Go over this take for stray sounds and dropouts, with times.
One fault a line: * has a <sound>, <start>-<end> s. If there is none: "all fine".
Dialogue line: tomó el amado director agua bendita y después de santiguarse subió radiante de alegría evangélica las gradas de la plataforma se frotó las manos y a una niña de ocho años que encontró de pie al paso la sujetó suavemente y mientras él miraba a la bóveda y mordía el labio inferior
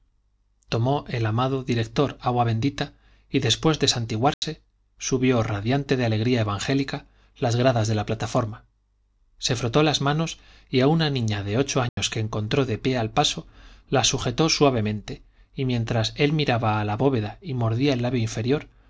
* has a dropout, 4.3-4.4 s
* has a dropout, 11.9-12.0 s